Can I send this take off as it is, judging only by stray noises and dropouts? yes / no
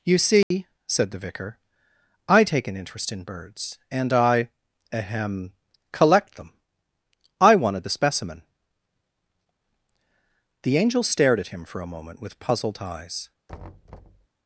no